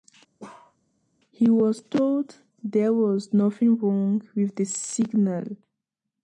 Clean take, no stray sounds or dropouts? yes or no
no